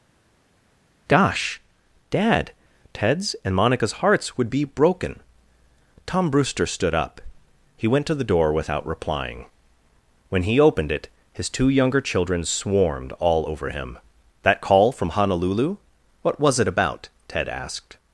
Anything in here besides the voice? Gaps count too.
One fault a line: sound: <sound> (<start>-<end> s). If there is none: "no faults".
no faults